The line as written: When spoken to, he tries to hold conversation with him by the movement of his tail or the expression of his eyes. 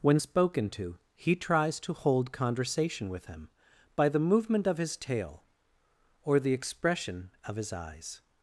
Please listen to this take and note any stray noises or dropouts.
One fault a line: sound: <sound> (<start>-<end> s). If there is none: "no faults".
no faults